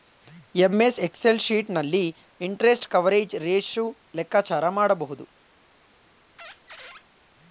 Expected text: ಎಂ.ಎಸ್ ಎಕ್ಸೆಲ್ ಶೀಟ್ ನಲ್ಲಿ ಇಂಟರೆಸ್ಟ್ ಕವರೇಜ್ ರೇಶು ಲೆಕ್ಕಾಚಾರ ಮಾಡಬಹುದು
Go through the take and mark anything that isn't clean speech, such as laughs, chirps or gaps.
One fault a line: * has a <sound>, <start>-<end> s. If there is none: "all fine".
* has a squeak, 6.4-7.1 s